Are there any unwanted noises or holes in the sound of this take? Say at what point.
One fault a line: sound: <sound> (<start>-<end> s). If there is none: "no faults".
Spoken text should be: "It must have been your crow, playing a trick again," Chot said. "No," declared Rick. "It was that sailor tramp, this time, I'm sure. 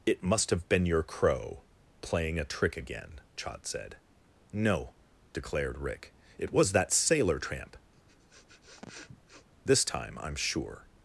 sound: sniff (7.9-9.5 s)